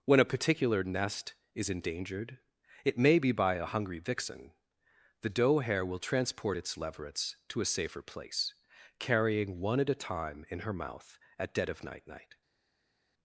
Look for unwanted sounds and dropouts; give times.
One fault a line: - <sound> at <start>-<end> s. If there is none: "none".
none